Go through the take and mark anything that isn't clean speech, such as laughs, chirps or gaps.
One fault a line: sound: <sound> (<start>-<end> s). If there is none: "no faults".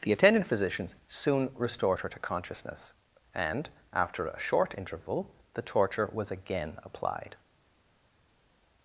no faults